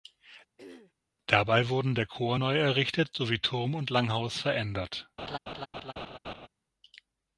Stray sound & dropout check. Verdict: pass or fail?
fail